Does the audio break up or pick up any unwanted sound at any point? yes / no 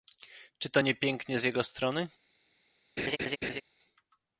yes